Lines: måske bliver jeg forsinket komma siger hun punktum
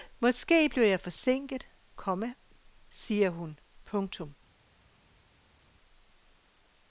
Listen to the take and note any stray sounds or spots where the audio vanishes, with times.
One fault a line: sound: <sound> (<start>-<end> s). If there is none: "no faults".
no faults